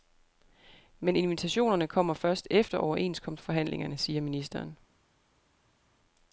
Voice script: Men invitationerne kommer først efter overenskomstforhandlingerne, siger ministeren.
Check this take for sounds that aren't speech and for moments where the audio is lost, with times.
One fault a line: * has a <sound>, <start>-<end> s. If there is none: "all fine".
all fine